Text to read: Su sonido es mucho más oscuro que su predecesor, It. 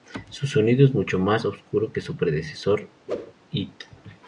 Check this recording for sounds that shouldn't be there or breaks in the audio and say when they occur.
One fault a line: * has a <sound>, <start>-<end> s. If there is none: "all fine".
* has a whoosh, 3.1-3.3 s